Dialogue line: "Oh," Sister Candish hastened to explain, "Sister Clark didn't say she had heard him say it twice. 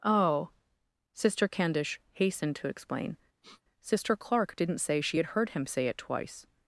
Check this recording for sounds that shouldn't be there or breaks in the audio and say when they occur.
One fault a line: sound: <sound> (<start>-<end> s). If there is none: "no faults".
sound: sniff (3.4-3.6 s)